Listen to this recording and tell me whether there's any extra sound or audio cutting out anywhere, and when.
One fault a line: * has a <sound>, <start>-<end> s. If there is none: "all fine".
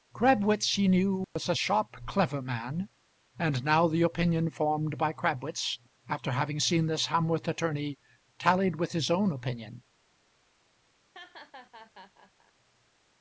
* has a dropout, 1.2-1.4 s
* has a laugh, 11.1-12.5 s